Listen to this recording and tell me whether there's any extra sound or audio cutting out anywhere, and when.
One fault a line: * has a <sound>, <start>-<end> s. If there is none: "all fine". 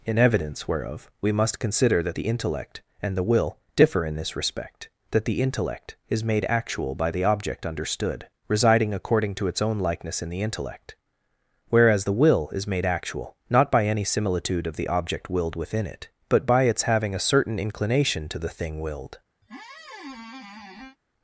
* has a squeak, 19.4-21.0 s